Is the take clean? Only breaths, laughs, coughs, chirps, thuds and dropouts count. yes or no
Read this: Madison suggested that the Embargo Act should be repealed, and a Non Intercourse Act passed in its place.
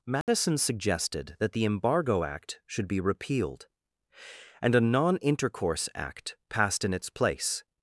no